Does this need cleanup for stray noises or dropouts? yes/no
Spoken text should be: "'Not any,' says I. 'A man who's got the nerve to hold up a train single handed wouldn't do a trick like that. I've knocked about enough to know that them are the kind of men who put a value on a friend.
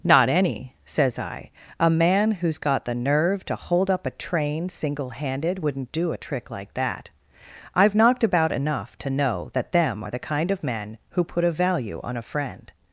no